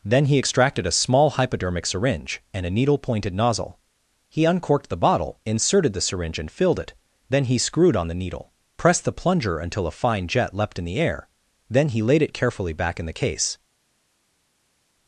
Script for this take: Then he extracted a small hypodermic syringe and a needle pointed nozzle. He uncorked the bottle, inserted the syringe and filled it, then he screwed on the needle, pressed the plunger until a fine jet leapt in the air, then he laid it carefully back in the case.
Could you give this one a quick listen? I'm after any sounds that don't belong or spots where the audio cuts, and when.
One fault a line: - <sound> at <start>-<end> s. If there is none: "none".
none